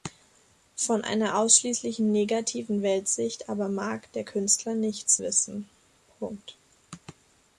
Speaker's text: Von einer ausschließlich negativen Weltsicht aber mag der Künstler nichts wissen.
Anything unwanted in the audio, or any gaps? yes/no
no